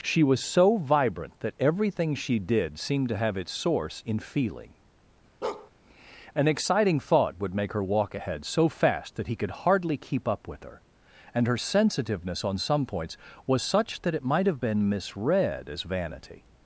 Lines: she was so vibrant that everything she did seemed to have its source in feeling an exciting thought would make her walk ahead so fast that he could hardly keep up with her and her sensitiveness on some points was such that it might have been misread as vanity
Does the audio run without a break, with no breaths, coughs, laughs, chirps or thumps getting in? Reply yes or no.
no